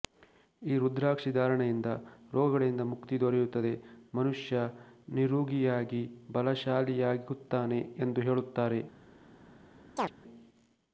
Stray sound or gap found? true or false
true